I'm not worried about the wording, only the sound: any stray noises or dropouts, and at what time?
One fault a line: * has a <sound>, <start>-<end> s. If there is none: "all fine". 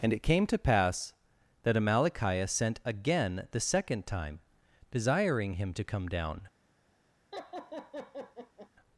* has a laugh, 7.3-8.7 s